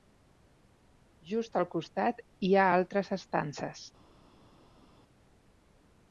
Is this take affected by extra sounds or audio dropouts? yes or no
no